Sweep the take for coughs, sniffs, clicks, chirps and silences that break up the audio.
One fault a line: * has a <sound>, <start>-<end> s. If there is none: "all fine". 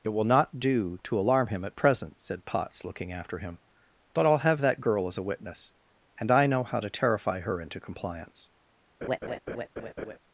* has a laugh, 9.0-10.2 s